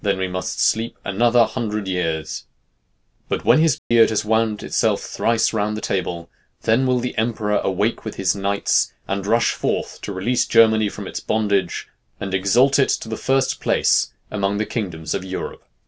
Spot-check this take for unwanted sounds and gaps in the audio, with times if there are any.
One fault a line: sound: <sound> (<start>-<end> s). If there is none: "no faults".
sound: dropout (3.8-3.9 s)